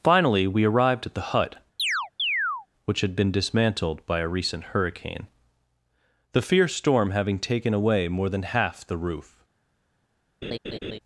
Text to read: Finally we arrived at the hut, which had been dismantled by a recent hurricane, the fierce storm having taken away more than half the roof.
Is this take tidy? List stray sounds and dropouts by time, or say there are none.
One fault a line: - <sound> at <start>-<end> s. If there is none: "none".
- chirp at 1.8-2.7 s
- laugh at 10.4-11.0 s